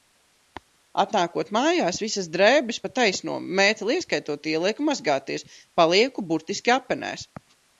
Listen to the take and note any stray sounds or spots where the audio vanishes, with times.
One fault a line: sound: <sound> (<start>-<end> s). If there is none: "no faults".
no faults